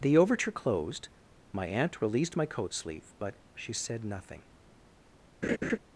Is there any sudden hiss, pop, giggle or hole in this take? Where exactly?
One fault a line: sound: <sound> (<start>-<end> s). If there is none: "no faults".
sound: laugh (5.4-5.8 s)